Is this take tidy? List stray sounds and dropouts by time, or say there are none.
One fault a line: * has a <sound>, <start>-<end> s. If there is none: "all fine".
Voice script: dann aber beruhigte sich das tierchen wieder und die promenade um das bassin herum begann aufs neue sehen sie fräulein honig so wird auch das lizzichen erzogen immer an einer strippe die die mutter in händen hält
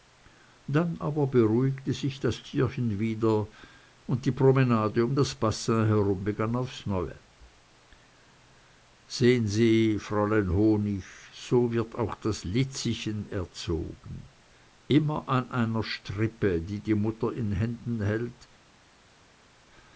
all fine